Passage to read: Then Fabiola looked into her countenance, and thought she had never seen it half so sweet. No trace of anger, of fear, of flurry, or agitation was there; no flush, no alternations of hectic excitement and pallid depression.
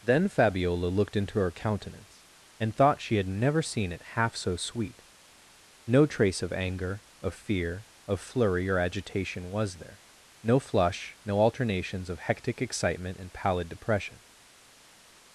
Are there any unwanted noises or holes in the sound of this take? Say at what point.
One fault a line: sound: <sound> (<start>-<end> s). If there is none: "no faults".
no faults